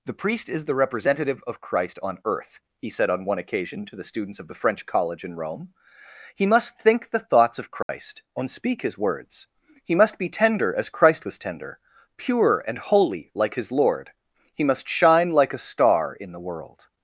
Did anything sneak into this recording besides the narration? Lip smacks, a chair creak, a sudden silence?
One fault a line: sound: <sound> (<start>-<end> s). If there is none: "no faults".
sound: dropout (7.8-7.9 s)